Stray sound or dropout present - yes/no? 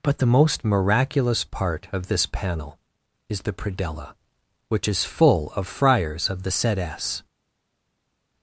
no